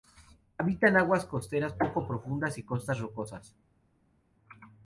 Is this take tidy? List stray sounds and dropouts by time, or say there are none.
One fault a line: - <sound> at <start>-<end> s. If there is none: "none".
none